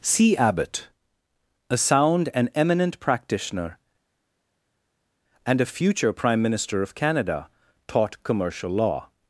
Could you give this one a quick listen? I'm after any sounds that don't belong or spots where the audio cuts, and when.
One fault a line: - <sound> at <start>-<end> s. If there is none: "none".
none